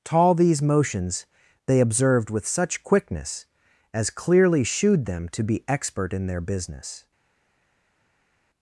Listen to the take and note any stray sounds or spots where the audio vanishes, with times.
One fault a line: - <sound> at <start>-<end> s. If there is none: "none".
none